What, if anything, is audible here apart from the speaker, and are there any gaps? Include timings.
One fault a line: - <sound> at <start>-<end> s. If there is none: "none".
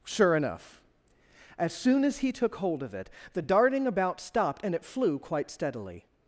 none